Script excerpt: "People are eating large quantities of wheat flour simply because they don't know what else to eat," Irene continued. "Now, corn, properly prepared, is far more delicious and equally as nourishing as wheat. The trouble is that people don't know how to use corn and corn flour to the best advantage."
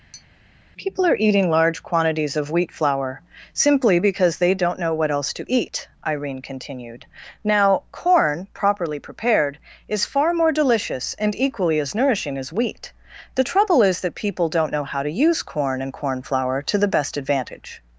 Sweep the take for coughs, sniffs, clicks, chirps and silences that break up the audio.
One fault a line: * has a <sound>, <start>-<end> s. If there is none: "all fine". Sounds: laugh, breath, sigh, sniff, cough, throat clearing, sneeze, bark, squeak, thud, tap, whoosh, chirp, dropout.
* has a tap, 0.1-0.3 s